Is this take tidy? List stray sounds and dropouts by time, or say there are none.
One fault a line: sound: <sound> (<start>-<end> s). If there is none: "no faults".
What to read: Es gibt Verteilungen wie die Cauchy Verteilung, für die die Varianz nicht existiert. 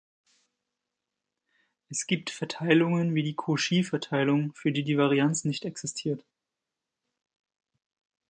no faults